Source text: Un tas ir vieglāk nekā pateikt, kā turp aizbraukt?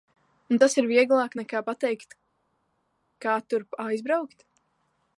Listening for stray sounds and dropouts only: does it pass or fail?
pass